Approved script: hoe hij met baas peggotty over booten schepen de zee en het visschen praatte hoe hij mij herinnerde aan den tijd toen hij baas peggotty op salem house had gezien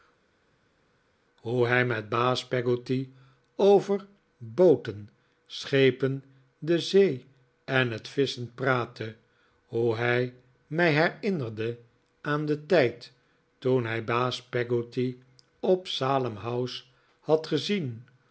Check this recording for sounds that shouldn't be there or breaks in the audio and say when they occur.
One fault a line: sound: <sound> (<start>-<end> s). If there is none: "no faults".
no faults